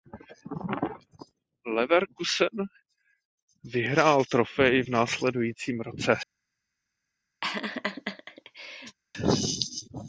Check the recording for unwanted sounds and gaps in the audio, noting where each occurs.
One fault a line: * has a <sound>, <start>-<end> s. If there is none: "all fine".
* has a laugh, 7.4-9.0 s